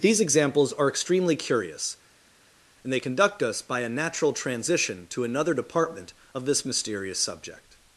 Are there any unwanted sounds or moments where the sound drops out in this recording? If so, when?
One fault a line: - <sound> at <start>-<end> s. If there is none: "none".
none